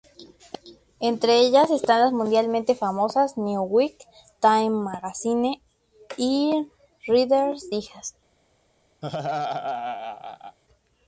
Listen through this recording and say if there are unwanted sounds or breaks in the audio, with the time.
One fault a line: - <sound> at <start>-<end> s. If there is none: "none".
- laugh at 9.0-10.6 s